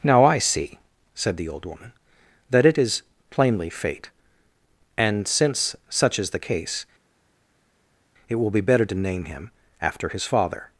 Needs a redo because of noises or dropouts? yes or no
no